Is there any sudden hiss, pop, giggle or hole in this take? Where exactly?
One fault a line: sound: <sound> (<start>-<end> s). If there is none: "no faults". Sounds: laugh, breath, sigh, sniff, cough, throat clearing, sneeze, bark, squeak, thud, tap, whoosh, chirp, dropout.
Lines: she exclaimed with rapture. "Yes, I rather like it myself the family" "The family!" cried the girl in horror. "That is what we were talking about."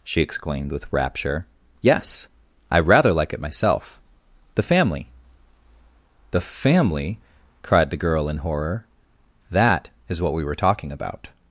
no faults